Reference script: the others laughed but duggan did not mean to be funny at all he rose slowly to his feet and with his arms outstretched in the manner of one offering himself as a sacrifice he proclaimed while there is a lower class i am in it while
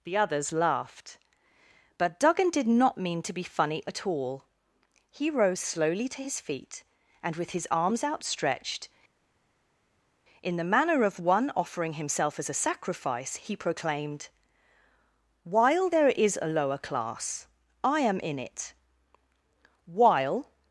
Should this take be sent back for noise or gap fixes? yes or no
no